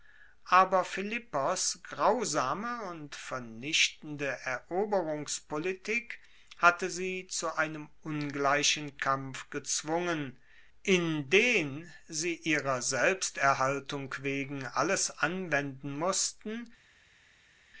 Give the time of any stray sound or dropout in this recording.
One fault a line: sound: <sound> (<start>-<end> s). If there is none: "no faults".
no faults